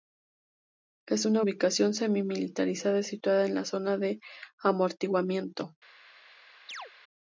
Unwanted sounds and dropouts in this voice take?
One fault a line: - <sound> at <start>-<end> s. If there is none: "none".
- chirp at 6.7-6.9 s